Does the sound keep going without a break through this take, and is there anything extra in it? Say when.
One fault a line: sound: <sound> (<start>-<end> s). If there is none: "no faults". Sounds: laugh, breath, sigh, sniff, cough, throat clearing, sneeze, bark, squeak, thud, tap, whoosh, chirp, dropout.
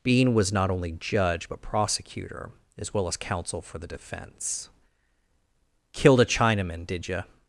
no faults